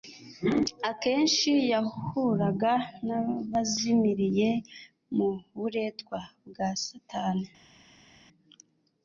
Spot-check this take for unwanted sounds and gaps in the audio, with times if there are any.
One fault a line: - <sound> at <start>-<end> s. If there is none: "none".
none